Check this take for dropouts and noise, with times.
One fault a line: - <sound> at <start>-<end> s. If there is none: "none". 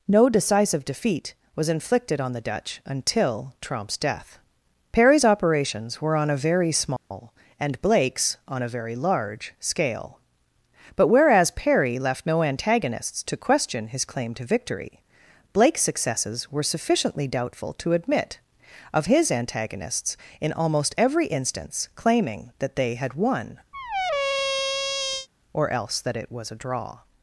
- dropout at 7.0-7.1 s
- squeak at 23.7-25.3 s